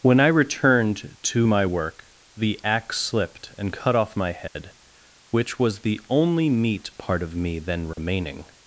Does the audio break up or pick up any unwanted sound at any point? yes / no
yes